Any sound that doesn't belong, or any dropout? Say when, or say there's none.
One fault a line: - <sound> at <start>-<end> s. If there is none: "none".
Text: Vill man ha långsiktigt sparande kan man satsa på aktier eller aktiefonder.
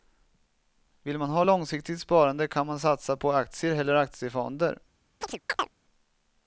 - chirp at 5.2-5.8 s